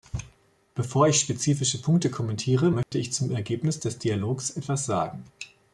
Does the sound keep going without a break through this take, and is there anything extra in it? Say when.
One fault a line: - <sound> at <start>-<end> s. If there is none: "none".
- dropout at 2.8-2.9 s